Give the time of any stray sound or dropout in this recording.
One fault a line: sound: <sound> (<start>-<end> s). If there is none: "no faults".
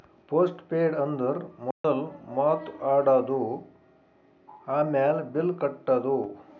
sound: dropout (1.7-1.8 s)